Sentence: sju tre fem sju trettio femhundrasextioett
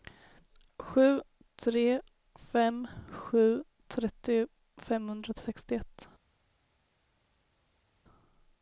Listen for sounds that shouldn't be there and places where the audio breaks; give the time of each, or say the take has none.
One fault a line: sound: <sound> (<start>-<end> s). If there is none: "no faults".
no faults